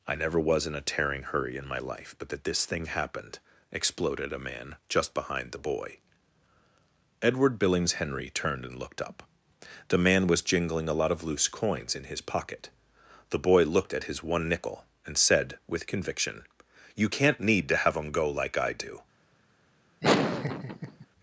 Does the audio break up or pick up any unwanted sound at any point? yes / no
yes